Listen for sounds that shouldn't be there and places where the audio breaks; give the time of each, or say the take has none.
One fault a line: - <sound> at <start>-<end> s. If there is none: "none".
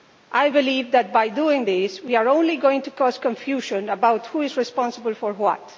none